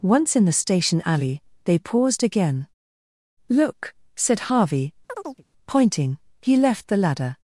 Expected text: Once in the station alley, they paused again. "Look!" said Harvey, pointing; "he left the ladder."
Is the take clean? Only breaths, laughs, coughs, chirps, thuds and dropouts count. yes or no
no